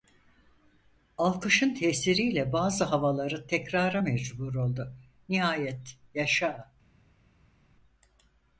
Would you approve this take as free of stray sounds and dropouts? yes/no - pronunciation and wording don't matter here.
yes